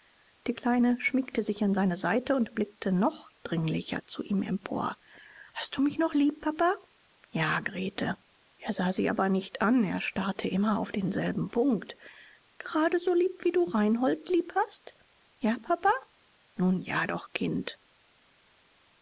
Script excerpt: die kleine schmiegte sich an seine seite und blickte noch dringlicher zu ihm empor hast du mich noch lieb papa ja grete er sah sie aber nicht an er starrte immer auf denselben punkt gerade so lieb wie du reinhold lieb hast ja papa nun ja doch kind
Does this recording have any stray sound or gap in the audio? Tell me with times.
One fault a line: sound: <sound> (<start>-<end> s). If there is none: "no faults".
no faults